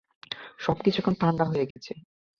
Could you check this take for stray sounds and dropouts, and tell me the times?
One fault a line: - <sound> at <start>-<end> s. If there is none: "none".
- dropout at 1.7-1.8 s